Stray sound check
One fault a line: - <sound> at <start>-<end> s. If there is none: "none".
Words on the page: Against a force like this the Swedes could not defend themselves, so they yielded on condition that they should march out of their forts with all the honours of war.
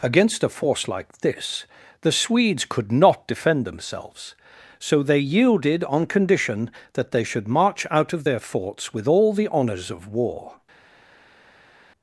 none